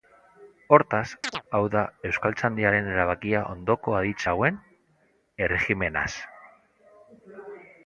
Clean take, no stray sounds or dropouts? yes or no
no